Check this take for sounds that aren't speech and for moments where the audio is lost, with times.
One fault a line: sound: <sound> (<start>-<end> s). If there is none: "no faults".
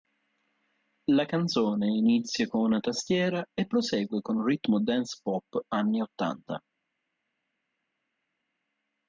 no faults